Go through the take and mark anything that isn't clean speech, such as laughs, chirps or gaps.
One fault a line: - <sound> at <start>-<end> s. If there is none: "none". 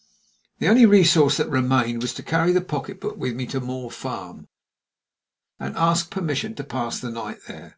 none